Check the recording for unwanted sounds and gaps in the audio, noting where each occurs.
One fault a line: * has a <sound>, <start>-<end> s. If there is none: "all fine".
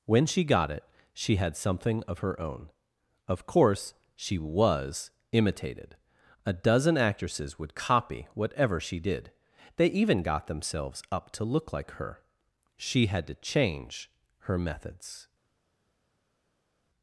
all fine